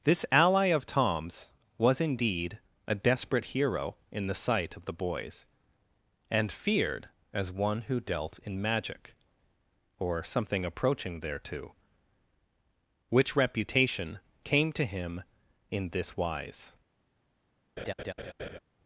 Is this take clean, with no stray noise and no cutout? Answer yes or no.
no